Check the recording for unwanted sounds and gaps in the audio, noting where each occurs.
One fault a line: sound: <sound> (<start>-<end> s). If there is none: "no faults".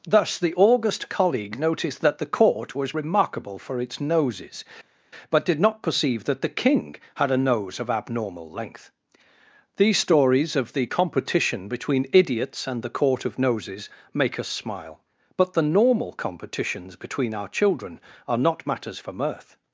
no faults